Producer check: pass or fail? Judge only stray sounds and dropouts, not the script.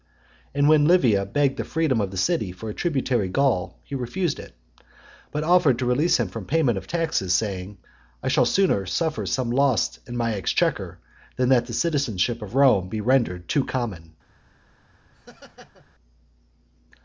fail